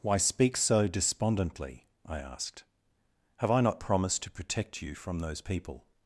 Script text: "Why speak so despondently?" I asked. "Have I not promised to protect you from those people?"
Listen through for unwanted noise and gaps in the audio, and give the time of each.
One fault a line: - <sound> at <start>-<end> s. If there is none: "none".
none